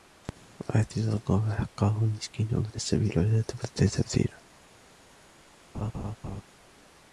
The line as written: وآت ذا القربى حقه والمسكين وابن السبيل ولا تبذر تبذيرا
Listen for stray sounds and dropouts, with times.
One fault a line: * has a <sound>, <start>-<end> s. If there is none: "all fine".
* has a laugh, 5.7-6.4 s